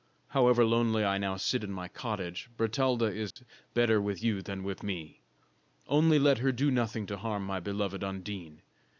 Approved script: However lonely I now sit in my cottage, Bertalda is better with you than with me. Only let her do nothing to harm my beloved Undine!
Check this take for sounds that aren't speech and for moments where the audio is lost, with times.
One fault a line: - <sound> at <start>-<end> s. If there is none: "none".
- dropout at 3.3-3.4 s